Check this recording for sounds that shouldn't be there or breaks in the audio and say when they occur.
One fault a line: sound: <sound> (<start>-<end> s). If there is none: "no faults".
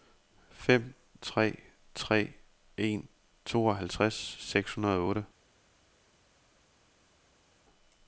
no faults